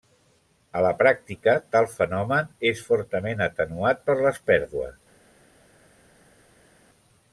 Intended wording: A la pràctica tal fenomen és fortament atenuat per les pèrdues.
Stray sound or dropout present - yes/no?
no